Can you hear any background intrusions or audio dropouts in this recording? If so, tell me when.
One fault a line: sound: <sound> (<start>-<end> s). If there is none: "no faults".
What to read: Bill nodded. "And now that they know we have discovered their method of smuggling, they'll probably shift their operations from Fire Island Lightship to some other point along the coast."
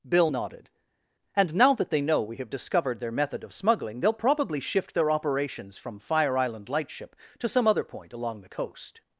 no faults